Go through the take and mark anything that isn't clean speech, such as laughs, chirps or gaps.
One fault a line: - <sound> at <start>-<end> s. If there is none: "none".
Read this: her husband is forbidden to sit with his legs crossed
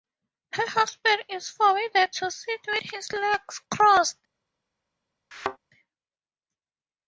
- thud at 5.3-5.6 s